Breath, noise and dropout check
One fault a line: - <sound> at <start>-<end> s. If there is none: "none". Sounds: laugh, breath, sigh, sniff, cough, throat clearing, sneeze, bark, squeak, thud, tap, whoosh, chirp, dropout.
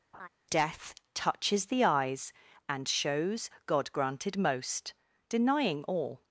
- laugh at 0.1-0.3 s